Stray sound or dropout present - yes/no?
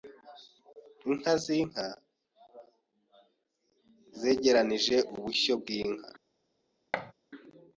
yes